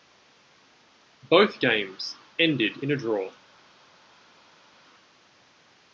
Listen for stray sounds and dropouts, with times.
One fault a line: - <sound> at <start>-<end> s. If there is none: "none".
none